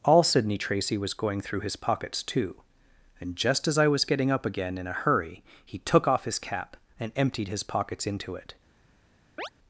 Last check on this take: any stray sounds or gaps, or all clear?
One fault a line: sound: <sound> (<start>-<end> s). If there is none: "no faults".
sound: chirp (9.4-9.5 s)